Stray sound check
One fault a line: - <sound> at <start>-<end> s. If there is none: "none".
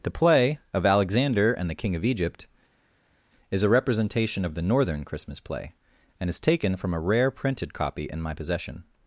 none